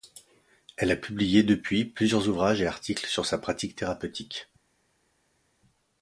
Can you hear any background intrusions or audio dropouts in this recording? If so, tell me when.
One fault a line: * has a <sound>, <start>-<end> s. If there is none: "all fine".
all fine